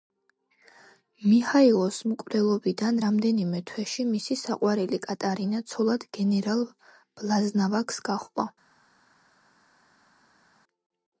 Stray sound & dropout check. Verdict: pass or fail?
pass